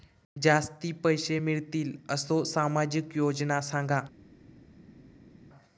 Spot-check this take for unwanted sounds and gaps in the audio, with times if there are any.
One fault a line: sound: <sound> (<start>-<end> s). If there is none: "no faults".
no faults